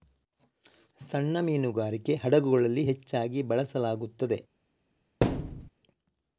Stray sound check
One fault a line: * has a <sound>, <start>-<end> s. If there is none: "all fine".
* has a thud, 5.2-5.7 s